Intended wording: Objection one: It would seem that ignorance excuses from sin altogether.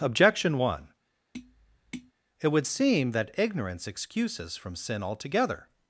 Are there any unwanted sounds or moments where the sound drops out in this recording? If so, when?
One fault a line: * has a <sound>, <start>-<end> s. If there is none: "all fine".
* has a tap, 1.3-2.1 s